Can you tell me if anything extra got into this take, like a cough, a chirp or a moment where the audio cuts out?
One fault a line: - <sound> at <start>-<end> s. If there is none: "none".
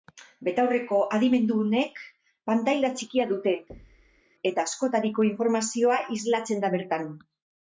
- thud at 3.7-4.2 s